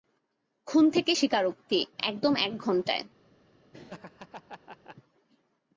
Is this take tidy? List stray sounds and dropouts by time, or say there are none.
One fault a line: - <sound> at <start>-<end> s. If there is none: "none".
- laugh at 3.7-5.0 s